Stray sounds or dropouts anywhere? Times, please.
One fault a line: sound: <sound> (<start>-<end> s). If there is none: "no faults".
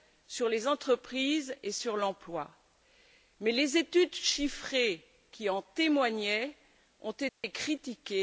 sound: dropout (7.3-7.4 s)